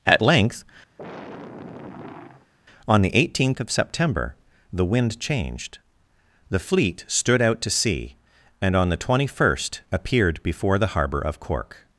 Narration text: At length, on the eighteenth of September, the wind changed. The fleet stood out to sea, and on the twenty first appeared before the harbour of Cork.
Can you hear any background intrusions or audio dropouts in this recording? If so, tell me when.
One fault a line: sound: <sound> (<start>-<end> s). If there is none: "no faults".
sound: sigh (1.0-2.5 s)